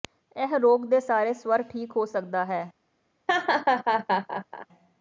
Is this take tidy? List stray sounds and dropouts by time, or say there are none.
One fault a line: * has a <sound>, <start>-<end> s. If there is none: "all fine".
* has a laugh, 3.3-4.7 s